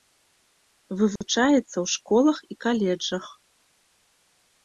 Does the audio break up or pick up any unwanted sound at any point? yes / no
yes